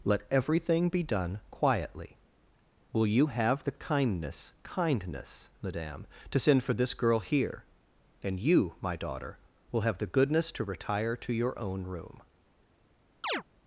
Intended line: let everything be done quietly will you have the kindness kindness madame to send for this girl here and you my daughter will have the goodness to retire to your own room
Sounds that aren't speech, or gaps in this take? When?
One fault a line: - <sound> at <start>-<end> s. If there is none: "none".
- chirp at 13.2-13.4 s